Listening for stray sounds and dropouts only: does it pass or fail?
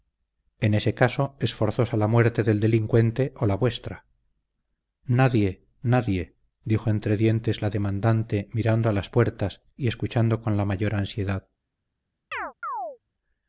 fail